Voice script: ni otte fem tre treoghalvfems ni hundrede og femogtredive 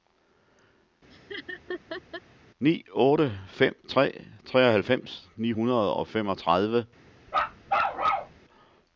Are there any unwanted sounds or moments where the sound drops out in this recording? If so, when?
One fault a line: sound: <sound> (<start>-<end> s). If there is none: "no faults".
sound: laugh (1.1-2.2 s)
sound: bark (7.3-8.4 s)